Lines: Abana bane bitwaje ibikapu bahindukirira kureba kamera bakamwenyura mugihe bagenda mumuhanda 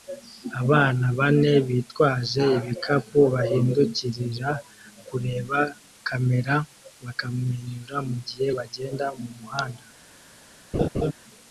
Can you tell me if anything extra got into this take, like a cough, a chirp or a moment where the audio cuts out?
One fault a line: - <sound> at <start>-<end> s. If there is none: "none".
- laugh at 10.7-11.1 s